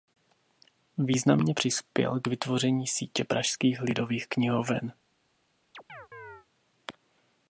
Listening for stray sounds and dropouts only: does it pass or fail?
fail